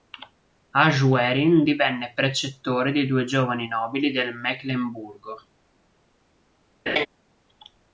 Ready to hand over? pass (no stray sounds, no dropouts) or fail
fail